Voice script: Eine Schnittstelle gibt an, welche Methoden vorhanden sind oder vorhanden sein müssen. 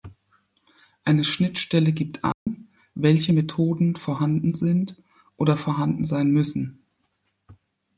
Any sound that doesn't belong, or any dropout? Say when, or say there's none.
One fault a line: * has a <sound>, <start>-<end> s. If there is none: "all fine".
* has a dropout, 2.3-2.5 s